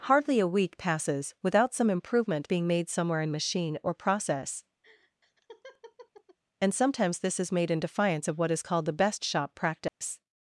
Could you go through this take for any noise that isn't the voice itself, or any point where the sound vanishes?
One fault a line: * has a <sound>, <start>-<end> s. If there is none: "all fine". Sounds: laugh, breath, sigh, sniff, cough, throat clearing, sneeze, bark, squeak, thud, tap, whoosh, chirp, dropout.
* has a laugh, 4.8-6.4 s
* has a dropout, 9.9-10.0 s